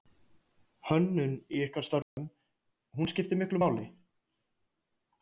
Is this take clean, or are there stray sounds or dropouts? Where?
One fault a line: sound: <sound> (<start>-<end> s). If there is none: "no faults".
sound: dropout (2.0-2.2 s)